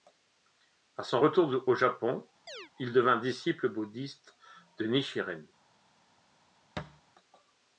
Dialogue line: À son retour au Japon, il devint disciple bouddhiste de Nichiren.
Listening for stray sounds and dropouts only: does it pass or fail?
fail